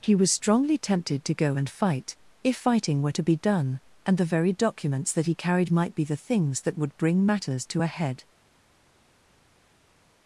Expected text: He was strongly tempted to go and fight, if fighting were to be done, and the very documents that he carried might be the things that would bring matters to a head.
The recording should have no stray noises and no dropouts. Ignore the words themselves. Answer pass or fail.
pass